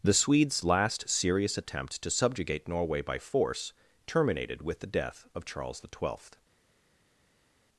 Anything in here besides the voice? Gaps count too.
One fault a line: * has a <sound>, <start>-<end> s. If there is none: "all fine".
all fine